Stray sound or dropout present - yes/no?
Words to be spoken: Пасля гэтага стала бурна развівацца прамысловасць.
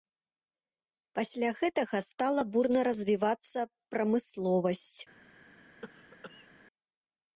yes